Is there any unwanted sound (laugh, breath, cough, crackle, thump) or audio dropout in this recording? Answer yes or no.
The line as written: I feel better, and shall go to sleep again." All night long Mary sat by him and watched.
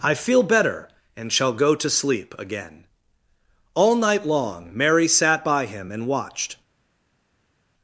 no